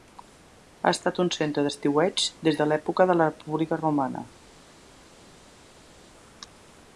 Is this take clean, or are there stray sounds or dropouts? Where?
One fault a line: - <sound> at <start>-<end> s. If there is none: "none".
none